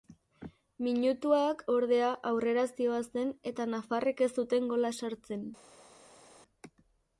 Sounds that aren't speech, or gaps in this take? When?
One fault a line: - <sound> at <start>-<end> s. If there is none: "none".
none